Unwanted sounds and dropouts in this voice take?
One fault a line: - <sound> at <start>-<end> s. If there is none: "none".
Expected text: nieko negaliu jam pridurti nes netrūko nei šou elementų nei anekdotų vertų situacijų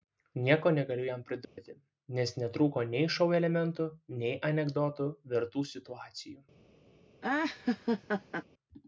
- dropout at 1.4-1.6 s
- laugh at 7.2-8.4 s